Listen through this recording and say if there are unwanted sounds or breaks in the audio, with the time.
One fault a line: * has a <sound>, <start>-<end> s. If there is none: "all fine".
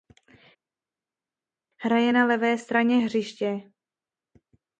all fine